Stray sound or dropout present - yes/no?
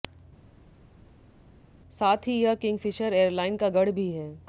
no